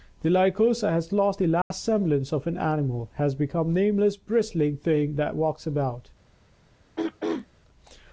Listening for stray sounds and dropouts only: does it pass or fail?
fail